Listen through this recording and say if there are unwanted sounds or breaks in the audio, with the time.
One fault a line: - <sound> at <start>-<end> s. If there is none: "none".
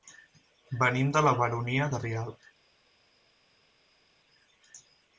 none